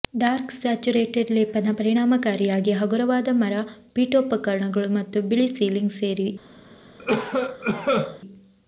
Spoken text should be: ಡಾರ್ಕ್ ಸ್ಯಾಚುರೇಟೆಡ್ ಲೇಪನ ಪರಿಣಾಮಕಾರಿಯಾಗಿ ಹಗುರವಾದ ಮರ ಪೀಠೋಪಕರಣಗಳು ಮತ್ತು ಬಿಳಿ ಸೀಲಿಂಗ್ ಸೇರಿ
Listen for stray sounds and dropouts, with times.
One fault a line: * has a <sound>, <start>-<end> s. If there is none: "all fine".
* has a cough, 7.0-8.2 s